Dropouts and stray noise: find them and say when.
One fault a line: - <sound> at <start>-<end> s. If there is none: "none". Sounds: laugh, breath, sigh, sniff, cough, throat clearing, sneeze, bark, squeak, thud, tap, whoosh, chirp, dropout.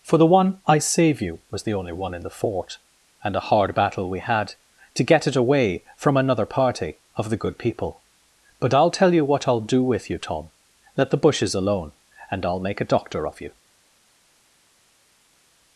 none